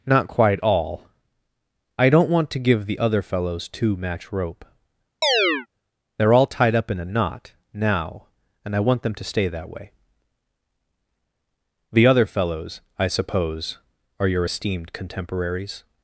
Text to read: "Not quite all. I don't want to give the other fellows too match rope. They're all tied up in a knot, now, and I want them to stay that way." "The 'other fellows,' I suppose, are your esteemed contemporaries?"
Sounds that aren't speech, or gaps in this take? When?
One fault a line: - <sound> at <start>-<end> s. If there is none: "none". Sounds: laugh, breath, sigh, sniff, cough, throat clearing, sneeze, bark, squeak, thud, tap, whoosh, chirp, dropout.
- chirp at 5.2-5.7 s